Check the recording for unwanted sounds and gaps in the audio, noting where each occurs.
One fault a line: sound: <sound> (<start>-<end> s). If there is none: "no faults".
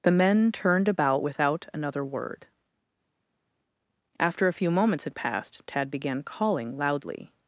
no faults